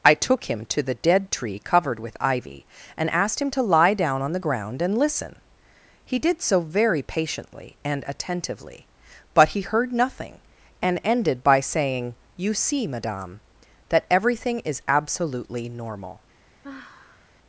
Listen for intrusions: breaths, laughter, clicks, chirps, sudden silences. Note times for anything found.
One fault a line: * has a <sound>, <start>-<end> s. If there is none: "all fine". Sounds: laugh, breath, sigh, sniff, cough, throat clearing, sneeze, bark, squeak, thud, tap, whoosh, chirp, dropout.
* has a sigh, 16.6-17.4 s